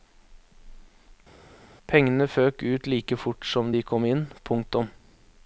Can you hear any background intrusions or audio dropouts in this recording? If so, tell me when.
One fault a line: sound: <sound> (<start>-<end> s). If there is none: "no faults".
no faults